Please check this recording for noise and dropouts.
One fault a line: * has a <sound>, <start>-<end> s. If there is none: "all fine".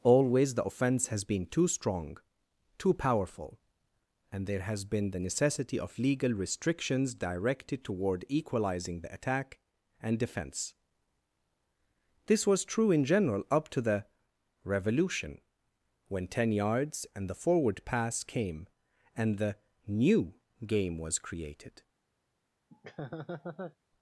* has a laugh, 22.7-23.8 s